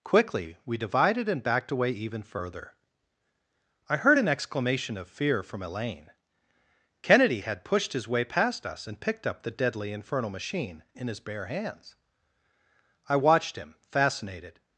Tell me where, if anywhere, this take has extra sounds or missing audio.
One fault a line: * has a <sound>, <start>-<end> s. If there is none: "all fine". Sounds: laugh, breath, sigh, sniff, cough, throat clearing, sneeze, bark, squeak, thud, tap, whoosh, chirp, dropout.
all fine